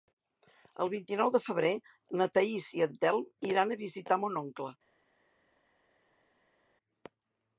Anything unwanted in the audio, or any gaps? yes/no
no